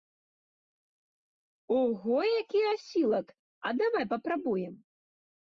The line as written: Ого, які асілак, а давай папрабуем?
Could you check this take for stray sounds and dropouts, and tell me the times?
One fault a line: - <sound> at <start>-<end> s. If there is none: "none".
none